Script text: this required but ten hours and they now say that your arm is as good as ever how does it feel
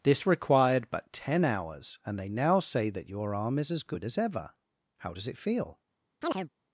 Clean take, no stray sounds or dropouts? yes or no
no